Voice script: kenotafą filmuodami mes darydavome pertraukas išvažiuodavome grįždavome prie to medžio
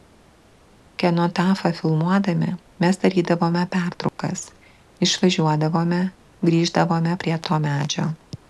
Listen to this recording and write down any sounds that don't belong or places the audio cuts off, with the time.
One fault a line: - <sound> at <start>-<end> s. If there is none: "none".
- dropout at 4.1-4.2 s